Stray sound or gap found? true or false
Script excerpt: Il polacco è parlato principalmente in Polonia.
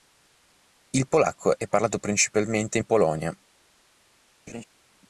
true